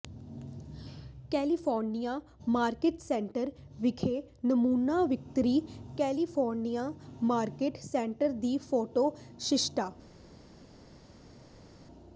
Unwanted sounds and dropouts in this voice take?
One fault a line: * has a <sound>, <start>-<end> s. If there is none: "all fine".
all fine